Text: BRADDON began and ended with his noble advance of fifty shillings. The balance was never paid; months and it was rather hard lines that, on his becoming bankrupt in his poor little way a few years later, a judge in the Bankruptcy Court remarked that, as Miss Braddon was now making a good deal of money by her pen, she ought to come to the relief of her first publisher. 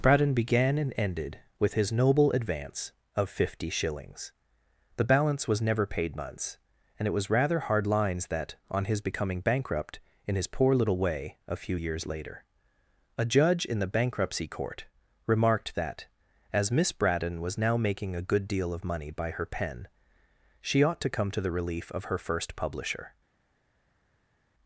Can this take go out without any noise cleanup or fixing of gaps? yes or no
yes